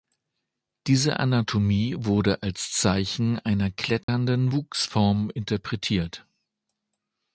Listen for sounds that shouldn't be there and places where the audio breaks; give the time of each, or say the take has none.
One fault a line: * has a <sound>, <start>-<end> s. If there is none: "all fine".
* has a dropout, 4.0-4.1 s